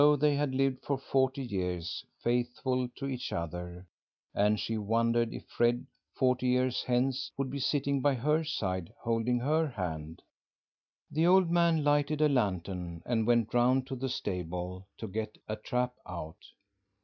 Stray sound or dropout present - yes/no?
no